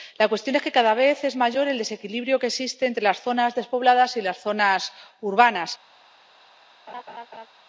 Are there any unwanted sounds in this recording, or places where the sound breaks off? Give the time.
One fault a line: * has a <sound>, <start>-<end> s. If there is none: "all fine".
* has a laugh, 6.9-7.5 s